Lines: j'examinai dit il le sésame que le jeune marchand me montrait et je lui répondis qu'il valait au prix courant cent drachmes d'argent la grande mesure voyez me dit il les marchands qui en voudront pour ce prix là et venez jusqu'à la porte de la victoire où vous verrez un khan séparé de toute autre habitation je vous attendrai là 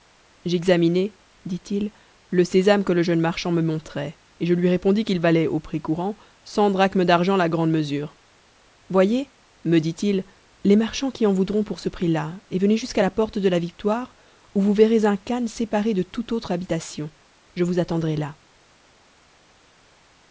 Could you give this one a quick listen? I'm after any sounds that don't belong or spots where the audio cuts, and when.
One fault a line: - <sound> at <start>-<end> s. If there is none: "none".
none